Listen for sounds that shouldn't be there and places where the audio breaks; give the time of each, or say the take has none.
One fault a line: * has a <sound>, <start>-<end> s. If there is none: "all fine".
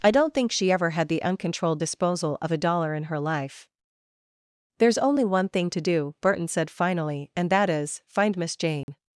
* has a dropout, 8.8-8.9 s